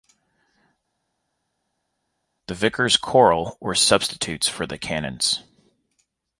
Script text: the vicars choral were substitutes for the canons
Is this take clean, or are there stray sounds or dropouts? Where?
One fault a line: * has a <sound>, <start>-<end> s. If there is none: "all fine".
all fine